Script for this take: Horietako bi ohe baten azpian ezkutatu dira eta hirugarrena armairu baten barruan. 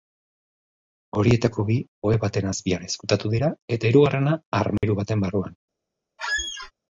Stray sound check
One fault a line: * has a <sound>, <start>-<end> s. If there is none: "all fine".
* has a dropout, 4.8-4.8 s
* has a squeak, 6.2-6.7 s